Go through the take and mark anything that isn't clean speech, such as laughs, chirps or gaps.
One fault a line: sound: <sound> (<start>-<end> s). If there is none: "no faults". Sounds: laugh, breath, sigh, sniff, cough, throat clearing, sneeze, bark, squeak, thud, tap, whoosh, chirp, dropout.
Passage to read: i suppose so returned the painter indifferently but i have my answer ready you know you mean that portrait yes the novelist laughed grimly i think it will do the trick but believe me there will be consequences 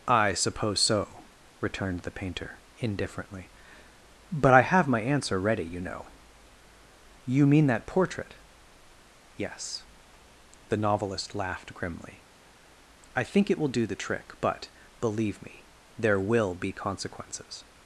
no faults